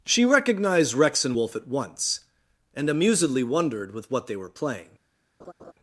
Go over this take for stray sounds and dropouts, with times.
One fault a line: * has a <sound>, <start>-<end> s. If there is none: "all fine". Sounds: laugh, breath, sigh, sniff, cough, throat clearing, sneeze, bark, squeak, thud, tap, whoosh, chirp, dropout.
* has a laugh, 5.4-5.7 s